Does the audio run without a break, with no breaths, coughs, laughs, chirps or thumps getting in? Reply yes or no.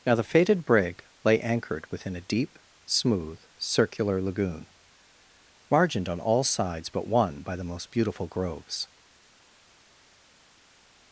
yes